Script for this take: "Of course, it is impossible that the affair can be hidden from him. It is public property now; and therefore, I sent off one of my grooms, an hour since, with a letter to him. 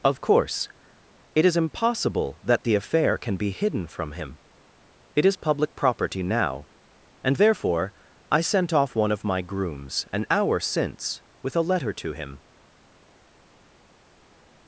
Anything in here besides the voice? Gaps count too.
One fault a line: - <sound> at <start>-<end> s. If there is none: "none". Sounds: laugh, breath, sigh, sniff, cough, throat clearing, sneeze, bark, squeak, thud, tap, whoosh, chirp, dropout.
none